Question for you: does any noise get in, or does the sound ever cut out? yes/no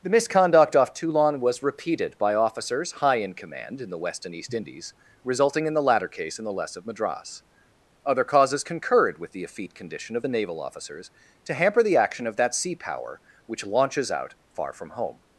no